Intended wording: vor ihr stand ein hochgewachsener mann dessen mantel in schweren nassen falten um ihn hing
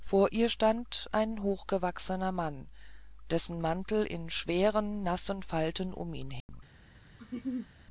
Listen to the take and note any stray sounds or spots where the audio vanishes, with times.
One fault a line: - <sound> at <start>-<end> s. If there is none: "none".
- dropout at 6.4-6.5 s
- laugh at 7.2-7.7 s